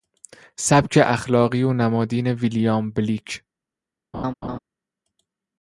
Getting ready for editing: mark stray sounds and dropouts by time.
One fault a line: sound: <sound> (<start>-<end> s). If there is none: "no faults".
sound: laugh (4.1-4.6 s)